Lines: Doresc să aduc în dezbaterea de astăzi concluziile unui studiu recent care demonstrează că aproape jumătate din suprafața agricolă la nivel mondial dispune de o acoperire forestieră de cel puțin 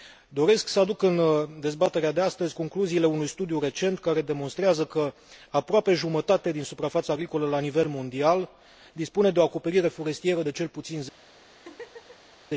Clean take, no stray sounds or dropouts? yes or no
no